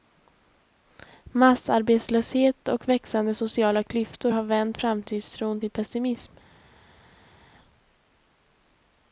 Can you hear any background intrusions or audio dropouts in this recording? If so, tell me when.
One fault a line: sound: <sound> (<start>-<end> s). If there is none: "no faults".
no faults